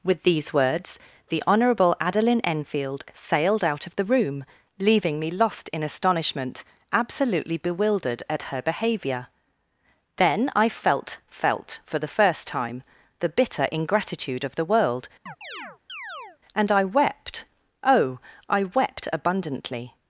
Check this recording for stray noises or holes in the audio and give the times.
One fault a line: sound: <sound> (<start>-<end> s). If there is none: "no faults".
sound: chirp (15.3-16.4 s)